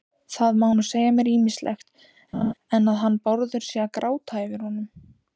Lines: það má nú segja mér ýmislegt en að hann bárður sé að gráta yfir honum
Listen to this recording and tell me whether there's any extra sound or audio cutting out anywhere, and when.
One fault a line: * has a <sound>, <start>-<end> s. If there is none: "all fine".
* has a laugh, 2.3-2.5 s